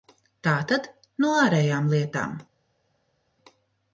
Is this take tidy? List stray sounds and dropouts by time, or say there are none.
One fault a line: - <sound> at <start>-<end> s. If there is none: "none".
none